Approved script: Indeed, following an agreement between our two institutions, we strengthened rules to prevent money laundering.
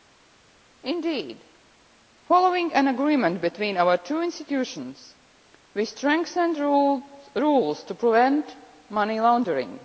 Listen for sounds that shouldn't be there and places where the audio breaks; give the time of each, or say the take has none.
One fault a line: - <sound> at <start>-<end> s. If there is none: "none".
none